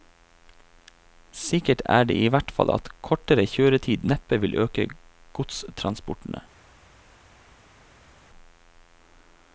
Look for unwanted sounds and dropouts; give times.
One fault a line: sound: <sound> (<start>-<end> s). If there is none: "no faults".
no faults